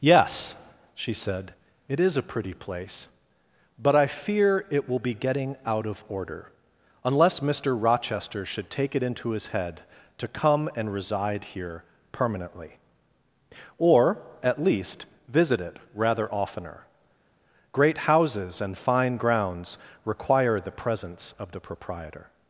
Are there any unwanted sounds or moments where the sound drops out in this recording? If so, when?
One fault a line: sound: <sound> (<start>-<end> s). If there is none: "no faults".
no faults